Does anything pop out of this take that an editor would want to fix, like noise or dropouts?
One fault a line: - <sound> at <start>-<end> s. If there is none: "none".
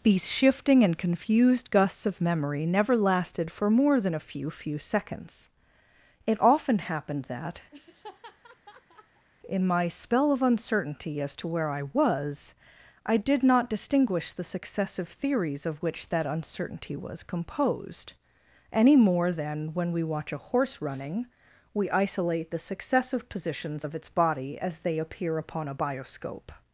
- laugh at 7.7-9.3 s